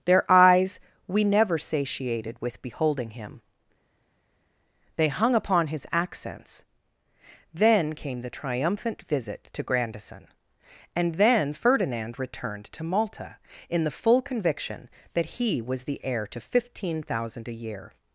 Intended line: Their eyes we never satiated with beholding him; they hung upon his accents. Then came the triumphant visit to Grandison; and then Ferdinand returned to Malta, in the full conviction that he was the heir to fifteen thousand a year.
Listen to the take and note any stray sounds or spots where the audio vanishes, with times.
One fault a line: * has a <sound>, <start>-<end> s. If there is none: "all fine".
all fine